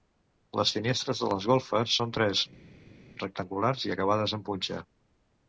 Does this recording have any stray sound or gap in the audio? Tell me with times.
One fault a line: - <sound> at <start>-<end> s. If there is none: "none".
none